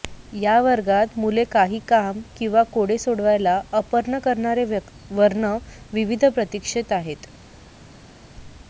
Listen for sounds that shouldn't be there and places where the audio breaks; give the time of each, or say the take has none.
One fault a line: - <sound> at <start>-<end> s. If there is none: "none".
none